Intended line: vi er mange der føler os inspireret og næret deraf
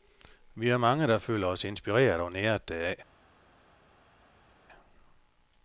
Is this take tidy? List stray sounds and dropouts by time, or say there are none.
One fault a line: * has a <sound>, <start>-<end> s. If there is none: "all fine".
all fine